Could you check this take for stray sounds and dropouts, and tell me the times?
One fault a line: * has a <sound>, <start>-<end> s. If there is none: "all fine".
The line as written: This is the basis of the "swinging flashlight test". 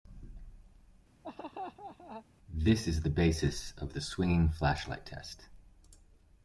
* has a laugh, 1.2-2.3 s